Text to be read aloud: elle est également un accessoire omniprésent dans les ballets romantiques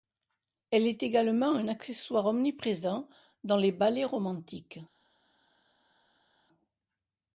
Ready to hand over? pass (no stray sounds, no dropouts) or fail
pass